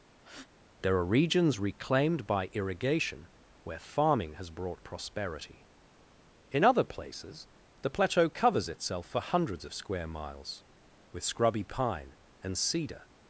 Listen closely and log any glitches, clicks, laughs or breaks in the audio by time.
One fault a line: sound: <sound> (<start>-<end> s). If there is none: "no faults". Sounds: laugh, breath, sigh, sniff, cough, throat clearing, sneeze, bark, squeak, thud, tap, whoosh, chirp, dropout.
sound: breath (0.2-0.5 s)